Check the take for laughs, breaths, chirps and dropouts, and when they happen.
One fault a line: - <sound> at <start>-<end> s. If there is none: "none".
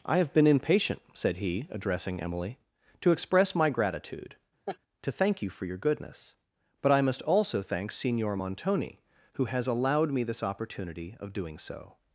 - laugh at 4.7-4.8 s